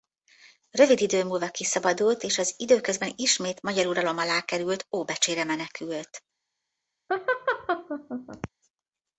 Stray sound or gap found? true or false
true